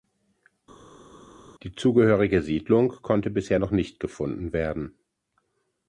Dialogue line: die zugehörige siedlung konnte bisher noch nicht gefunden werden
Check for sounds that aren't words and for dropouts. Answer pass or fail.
pass